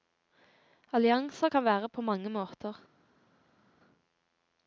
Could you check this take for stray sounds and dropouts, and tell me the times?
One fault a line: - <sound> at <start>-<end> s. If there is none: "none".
none